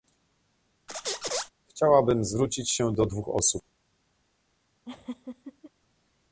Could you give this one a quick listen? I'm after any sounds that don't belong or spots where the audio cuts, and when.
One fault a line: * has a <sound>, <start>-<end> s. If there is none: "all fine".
* has a squeak, 0.9-1.5 s
* has a laugh, 4.8-5.7 s